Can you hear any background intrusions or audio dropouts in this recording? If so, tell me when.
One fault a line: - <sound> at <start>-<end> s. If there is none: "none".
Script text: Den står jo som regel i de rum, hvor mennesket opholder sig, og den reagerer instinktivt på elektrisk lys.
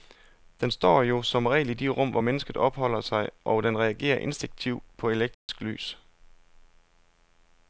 - dropout at 5.3-5.5 s